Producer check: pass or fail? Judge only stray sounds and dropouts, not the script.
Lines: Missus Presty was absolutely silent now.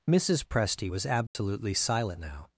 fail